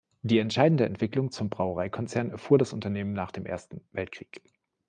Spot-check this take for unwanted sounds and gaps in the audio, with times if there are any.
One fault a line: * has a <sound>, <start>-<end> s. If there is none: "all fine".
all fine